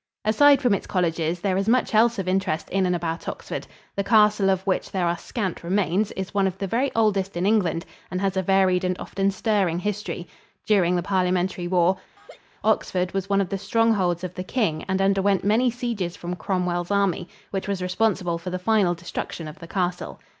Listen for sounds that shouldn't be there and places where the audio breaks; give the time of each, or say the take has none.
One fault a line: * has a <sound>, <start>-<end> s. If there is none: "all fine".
* has a laugh, 12.2-12.4 s